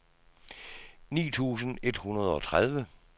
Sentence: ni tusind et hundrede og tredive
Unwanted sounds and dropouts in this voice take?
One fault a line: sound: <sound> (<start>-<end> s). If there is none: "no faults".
no faults